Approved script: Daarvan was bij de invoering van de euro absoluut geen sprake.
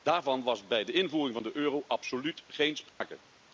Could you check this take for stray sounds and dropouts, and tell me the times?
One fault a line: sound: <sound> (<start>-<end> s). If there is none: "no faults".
sound: dropout (2.9-3.0 s)